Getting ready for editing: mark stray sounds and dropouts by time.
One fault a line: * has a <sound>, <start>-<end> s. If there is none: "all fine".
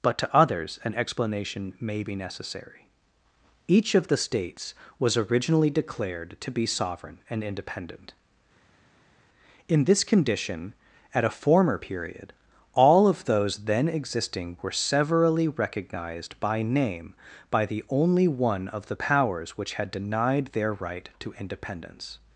all fine